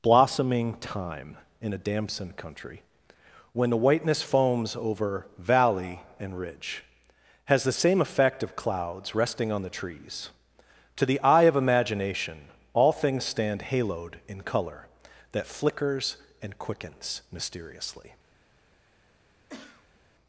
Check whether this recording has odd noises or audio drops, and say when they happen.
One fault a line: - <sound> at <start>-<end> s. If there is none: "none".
- cough at 19.5-20.0 s